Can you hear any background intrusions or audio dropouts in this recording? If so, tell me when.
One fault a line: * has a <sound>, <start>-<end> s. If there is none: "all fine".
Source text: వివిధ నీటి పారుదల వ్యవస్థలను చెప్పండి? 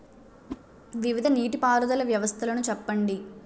* has a whoosh, 0.5-0.6 s